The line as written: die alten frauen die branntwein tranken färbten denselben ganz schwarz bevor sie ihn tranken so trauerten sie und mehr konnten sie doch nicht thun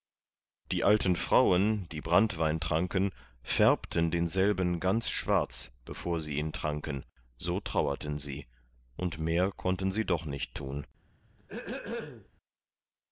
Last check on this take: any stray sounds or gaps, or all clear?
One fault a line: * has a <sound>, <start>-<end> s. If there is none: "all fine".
* has a throat clearing, 11.4-12.3 s